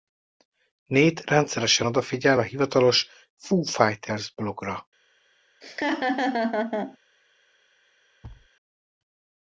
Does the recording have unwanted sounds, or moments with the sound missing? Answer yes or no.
yes